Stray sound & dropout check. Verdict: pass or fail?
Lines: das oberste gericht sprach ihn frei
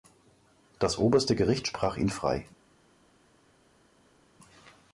pass